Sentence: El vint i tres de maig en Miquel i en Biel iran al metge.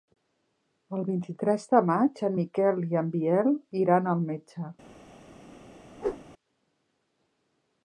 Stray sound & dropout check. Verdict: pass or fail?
fail